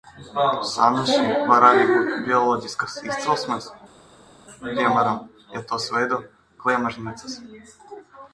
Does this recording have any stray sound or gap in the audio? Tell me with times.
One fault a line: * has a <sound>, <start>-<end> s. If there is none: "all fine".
all fine